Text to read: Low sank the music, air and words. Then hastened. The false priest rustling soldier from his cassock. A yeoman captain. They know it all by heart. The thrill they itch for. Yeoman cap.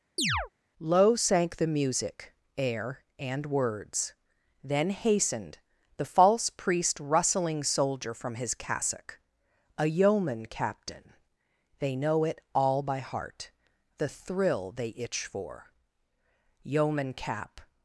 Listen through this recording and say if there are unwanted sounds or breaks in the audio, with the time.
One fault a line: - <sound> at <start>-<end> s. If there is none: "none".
- chirp at 0.2-0.5 s